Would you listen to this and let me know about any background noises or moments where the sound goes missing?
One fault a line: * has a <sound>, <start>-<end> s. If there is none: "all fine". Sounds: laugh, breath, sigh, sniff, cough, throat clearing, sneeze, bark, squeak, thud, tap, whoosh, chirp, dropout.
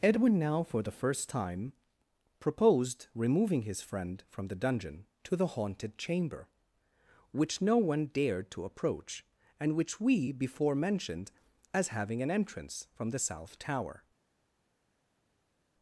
all fine